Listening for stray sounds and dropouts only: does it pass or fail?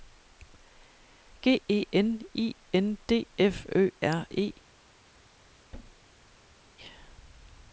fail